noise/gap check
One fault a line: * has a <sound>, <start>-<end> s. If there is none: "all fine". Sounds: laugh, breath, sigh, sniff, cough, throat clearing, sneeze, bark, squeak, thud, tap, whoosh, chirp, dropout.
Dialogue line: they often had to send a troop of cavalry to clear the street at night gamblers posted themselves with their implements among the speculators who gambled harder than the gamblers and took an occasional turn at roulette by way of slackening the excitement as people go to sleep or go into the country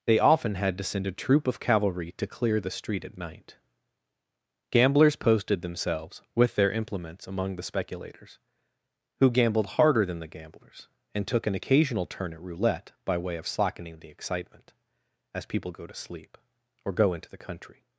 all fine